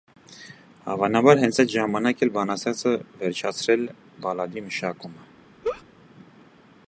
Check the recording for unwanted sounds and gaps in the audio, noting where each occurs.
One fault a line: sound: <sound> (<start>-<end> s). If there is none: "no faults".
sound: laugh (5.6-5.8 s)